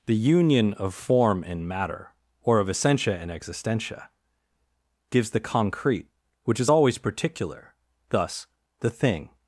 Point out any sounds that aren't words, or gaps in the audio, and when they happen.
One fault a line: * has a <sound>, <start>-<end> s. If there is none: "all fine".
all fine